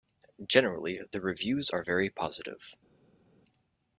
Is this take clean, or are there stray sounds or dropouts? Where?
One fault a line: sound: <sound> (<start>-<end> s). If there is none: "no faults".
no faults